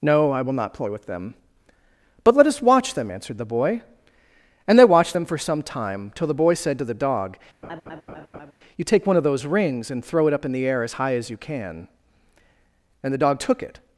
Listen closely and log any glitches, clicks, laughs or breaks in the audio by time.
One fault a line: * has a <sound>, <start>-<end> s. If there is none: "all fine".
* has a laugh, 7.6-8.5 s